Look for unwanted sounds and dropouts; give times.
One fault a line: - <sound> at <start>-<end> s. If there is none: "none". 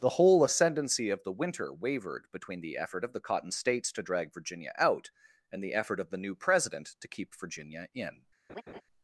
- laugh at 8.5-8.8 s